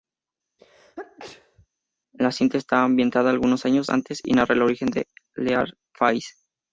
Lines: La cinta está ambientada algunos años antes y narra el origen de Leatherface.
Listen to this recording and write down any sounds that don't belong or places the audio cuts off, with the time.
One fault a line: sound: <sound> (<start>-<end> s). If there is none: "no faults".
sound: sneeze (0.6-1.7 s)